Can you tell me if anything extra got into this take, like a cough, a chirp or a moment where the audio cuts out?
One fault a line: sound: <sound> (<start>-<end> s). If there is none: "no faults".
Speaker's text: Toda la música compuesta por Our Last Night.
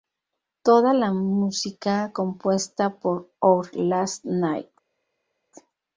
no faults